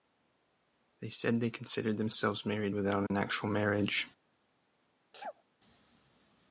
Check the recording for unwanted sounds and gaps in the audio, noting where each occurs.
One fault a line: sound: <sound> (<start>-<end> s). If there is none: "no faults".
sound: dropout (3.1-3.1 s)
sound: sneeze (5.1-5.4 s)